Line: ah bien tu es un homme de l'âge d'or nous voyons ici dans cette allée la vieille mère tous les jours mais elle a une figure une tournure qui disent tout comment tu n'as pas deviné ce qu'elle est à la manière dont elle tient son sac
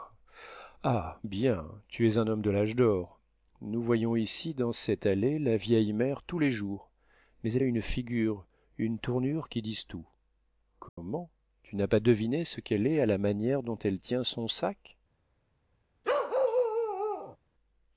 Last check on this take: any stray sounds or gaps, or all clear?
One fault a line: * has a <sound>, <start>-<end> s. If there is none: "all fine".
* has a dropout, 10.9-11.0 s
* has a bark, 16.0-17.4 s